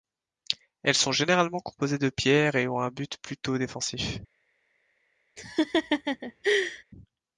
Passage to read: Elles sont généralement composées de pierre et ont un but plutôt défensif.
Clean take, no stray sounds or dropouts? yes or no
no